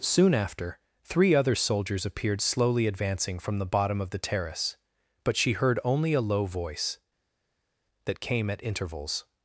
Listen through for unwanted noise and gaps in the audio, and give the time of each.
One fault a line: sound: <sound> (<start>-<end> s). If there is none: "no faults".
no faults